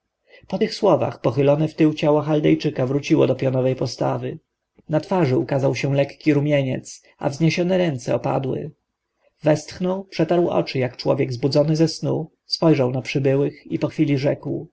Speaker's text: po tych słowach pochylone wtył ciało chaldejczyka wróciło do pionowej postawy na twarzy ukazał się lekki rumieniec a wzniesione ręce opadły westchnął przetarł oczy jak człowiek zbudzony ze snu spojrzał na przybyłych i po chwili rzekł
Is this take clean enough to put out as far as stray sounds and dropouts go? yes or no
yes